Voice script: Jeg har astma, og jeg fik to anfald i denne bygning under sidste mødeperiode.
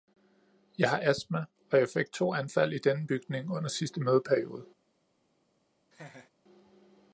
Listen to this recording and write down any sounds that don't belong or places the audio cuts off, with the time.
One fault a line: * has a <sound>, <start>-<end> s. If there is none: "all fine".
* has a laugh, 5.9-6.3 s